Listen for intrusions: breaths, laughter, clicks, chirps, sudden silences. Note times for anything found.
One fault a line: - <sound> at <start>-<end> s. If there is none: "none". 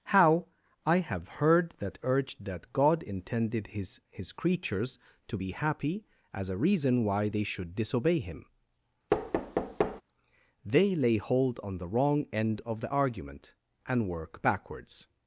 - thud at 9.1-10.0 s